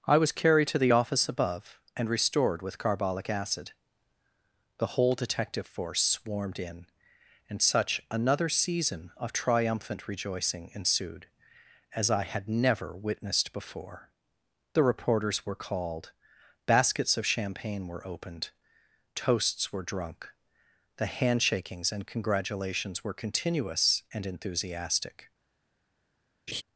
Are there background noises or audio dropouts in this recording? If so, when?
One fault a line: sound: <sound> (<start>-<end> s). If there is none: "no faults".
sound: laugh (26.5-26.6 s)